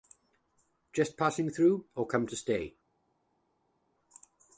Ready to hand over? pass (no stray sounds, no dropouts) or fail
pass